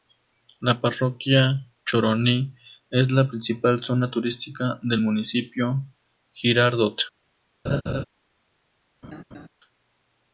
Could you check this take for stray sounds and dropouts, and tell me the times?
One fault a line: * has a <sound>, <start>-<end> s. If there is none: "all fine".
* has a laugh, 7.6-8.0 s
* has a laugh, 9.0-9.5 s